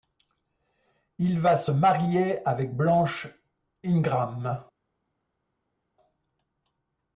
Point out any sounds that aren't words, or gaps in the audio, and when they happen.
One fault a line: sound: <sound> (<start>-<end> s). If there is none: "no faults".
no faults